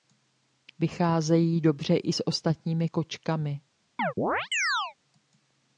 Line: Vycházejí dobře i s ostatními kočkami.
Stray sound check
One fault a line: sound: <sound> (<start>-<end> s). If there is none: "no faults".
sound: chirp (4.0-4.9 s)